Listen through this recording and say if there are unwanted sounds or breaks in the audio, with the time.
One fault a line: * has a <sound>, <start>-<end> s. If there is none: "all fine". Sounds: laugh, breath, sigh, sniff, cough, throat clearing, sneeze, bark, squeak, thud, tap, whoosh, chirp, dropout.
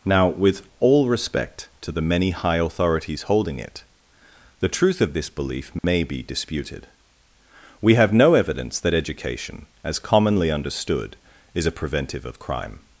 * has a dropout, 5.8-5.8 s